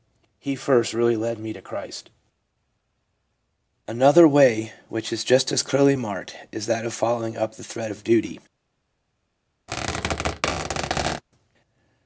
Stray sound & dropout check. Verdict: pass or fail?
fail